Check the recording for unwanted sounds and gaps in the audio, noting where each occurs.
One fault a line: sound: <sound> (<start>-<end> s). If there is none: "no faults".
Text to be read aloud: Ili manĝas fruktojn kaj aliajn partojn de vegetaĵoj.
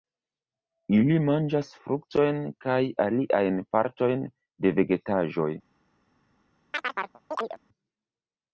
sound: chirp (6.7-7.6 s)